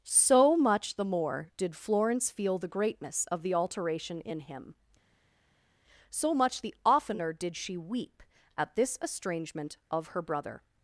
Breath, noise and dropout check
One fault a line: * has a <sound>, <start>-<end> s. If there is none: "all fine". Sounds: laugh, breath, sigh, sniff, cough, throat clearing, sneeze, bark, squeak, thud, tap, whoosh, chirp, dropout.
all fine